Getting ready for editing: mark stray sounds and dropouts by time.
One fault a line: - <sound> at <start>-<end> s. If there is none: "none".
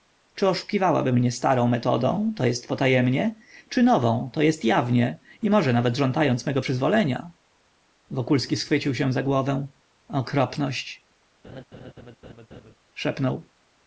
- laugh at 11.4-12.7 s